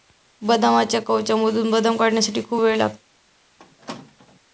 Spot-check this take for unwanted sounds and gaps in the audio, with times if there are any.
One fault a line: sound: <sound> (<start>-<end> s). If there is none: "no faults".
sound: squeak (3.6-4.4 s)